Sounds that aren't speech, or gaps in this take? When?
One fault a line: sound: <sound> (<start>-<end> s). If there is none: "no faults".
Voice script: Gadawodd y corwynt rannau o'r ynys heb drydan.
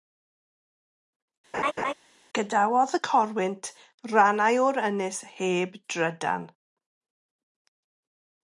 sound: laugh (1.5-1.9 s)